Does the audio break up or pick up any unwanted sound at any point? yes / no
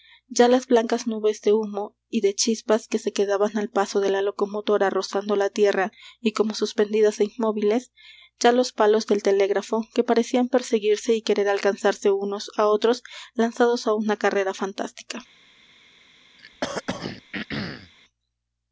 yes